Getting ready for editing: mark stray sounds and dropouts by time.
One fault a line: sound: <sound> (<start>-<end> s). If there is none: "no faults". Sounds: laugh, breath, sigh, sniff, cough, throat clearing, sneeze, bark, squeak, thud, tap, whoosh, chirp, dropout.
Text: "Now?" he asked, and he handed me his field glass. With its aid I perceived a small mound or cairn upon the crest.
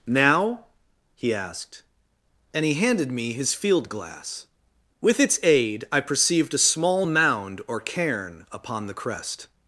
no faults